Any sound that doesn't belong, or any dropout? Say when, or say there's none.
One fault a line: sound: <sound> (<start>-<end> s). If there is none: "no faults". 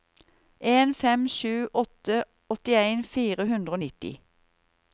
no faults